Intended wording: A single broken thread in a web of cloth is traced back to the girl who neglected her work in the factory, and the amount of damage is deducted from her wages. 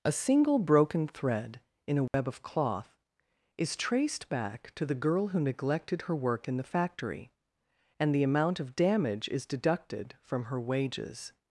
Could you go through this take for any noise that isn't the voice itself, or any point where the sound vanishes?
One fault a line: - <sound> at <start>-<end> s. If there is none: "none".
- dropout at 2.1-2.1 s